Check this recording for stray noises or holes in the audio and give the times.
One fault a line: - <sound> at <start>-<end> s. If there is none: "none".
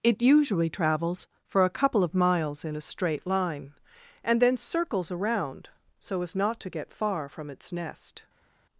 none